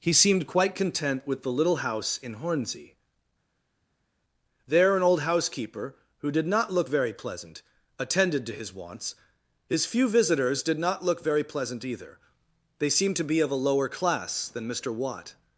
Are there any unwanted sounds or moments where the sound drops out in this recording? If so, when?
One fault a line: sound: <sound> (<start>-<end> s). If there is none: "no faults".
no faults